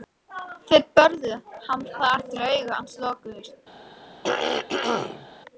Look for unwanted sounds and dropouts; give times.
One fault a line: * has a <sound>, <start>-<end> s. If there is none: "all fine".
* has a throat clearing, 4.2-5.3 s